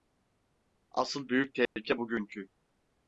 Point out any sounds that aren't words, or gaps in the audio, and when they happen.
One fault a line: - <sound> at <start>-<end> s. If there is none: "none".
- dropout at 1.7-1.8 s